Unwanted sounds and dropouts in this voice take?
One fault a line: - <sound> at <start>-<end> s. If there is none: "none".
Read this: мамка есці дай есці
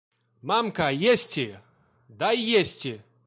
none